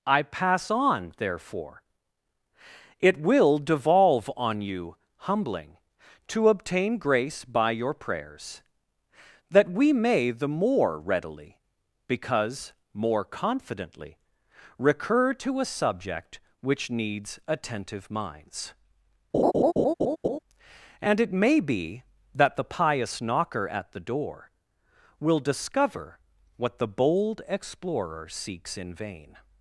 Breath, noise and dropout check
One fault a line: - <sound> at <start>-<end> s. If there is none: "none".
- laugh at 19.3-20.4 s